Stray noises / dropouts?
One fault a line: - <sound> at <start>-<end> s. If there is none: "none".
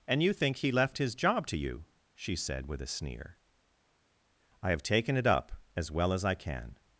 none